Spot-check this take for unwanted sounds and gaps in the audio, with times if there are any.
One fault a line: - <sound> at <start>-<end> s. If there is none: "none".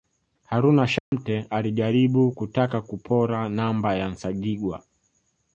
- dropout at 1.0-1.1 s